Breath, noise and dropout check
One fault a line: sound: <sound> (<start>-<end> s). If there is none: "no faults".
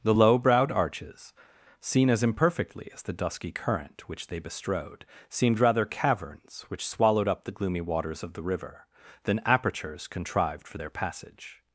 no faults